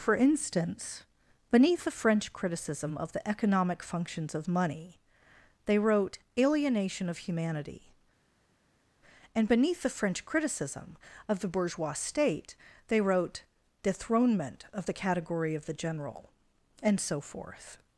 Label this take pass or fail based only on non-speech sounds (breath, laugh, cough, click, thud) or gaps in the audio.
pass